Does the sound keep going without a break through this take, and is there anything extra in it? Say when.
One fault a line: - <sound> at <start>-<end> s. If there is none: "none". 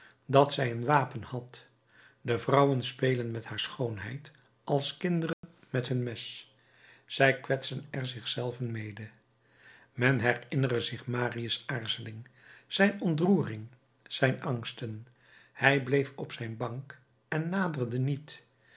- dropout at 5.3-5.4 s